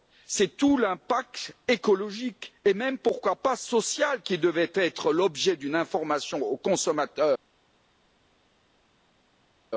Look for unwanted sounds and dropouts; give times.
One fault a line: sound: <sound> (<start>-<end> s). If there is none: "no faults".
no faults